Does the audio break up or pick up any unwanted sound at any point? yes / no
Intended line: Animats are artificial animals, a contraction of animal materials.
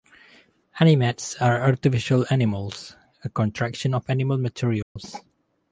yes